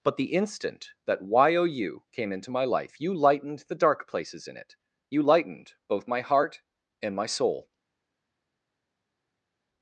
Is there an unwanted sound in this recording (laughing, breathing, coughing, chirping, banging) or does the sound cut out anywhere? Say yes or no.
no